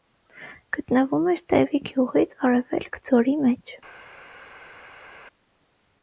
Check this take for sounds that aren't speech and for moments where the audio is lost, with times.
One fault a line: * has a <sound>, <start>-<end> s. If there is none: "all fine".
all fine